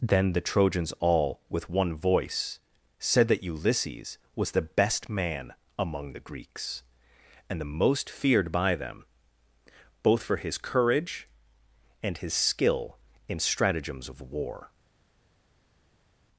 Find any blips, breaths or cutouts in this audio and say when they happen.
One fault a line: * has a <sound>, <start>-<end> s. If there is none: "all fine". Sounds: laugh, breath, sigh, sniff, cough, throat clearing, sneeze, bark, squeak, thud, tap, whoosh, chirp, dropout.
all fine